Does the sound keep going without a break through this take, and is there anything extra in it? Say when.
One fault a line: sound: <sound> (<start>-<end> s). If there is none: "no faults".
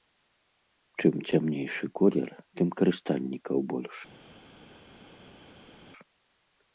no faults